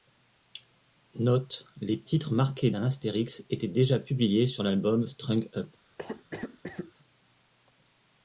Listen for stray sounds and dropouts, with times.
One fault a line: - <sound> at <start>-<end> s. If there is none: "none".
- cough at 6.0-6.9 s